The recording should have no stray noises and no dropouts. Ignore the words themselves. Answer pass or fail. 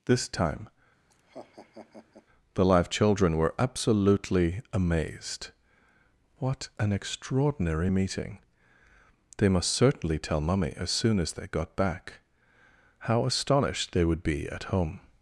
fail